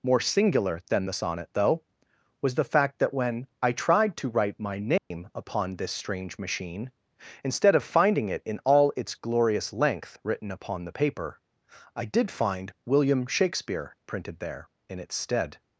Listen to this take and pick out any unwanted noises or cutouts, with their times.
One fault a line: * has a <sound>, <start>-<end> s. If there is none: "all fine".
* has a dropout, 5.0-5.1 s